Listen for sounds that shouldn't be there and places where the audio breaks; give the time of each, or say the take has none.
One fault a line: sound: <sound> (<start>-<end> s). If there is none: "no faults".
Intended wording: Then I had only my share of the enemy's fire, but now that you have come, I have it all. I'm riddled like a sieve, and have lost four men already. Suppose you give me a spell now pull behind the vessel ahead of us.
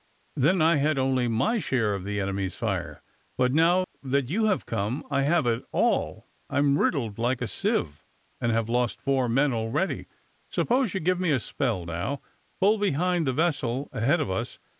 sound: dropout (3.8-3.9 s)